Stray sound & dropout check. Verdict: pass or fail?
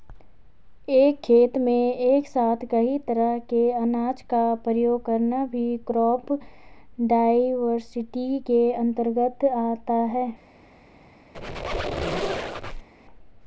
fail